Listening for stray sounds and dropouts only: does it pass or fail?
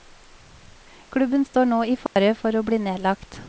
fail